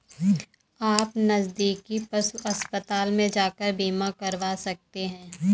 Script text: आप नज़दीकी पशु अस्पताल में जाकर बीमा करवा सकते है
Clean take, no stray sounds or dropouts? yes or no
yes